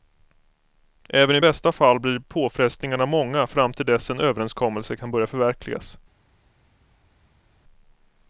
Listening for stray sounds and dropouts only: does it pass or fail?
pass